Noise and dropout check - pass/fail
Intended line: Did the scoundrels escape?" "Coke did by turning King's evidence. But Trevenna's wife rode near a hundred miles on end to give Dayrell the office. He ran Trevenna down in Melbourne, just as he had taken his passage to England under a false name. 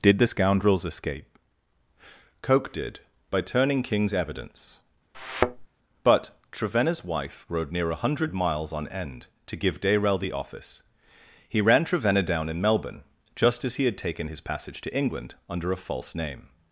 fail